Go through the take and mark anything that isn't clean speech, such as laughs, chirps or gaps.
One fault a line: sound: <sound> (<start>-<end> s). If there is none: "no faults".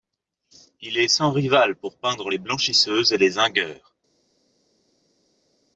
no faults